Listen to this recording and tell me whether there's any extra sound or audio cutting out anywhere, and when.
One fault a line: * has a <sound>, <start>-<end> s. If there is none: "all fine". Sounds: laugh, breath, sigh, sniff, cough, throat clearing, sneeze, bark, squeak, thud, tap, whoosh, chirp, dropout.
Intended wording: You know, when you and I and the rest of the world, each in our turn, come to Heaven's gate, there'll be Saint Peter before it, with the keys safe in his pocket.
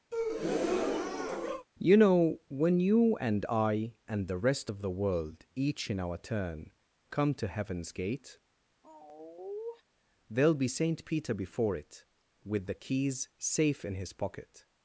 * has a breath, 0.1-1.7 s
* has a sigh, 8.8-9.8 s